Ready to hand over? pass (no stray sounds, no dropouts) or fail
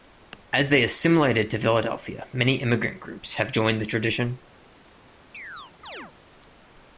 fail